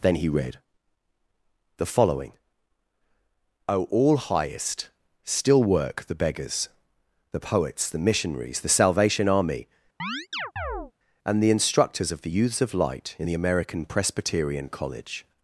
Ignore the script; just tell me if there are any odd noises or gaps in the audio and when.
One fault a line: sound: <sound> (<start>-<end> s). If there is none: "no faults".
sound: chirp (10.0-10.9 s)